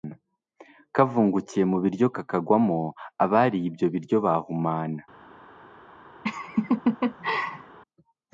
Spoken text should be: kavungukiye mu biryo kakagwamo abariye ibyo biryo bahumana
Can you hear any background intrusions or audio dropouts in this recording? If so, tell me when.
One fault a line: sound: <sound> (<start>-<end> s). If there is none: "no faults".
sound: laugh (6.2-7.8 s)